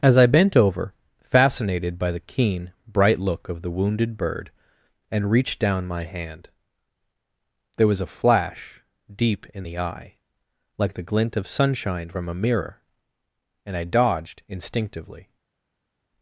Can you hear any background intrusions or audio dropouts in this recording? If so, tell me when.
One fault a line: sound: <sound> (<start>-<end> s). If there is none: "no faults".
no faults